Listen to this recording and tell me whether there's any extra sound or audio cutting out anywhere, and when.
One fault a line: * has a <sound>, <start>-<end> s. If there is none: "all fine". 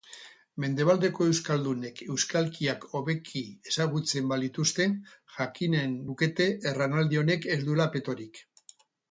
all fine